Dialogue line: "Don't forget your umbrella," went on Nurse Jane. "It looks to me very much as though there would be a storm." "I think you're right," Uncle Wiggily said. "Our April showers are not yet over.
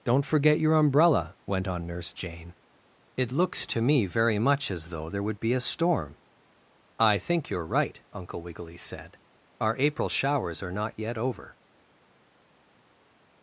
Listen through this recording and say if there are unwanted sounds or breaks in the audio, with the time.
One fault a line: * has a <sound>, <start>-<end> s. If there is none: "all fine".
all fine